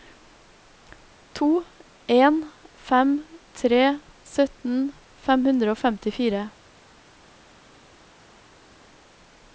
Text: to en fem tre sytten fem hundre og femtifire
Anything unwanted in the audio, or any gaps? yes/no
no